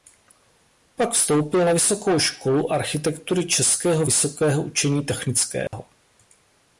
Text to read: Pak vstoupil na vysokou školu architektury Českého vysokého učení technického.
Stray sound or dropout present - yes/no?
yes